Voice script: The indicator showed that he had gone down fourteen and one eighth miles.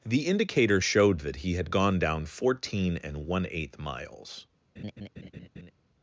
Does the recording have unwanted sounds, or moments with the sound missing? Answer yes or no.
yes